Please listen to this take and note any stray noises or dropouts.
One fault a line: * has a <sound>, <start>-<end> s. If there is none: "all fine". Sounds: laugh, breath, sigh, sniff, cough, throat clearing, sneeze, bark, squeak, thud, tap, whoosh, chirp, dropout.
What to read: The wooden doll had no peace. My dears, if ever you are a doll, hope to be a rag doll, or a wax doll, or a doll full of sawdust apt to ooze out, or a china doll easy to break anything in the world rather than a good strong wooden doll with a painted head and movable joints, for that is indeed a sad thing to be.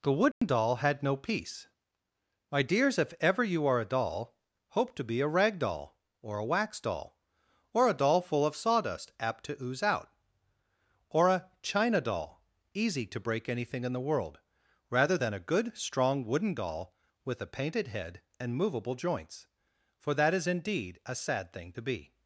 * has a dropout, 0.3-0.4 s